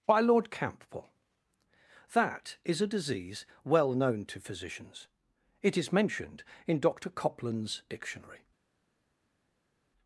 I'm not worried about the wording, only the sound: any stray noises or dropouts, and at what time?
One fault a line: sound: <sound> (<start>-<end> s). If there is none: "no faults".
no faults